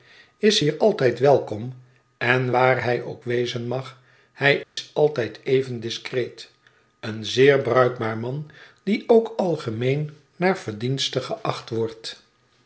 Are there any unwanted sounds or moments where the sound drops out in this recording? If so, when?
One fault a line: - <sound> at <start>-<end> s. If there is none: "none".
- dropout at 4.6-4.8 s